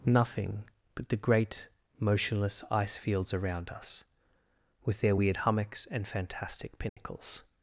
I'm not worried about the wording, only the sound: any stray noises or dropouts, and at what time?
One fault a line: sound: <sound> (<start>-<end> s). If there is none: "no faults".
sound: dropout (6.9-7.0 s)